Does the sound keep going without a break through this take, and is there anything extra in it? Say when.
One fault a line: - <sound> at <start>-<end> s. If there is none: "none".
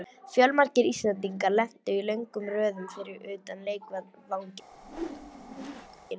- whoosh at 4.7-6.1 s